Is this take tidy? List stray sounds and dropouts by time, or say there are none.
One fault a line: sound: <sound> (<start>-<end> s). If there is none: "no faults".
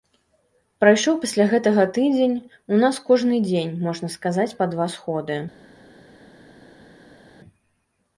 no faults